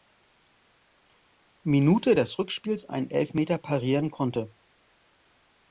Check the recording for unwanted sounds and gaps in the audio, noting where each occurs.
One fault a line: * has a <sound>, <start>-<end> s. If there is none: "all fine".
all fine